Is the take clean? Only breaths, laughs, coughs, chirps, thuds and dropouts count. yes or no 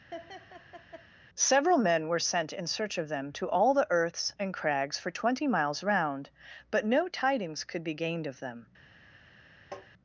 no